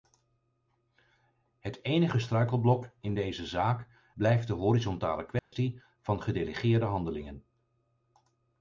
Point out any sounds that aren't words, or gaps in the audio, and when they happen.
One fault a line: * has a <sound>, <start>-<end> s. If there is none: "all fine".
* has a dropout, 5.4-5.5 s